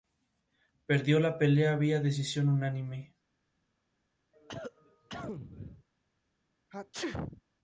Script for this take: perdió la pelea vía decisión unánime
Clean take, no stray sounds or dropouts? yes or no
no